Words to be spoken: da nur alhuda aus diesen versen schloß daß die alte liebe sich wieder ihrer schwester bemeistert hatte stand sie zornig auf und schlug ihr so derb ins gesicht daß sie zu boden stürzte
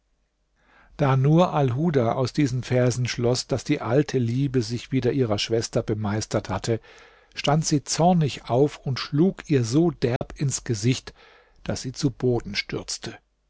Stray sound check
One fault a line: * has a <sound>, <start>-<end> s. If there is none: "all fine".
* has a dropout, 10.2-10.2 s